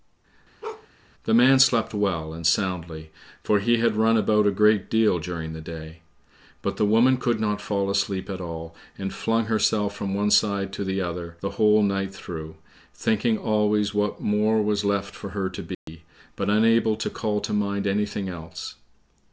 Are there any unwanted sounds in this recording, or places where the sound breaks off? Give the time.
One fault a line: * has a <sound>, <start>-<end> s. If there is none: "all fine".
* has a bark, 0.6-0.9 s
* has a dropout, 15.7-15.9 s